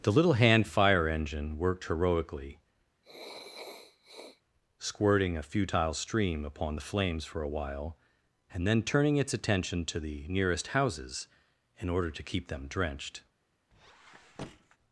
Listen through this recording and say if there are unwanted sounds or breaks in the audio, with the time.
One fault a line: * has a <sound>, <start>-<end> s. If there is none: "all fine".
* has a sniff, 3.0-4.4 s
* has a squeak, 13.7-14.8 s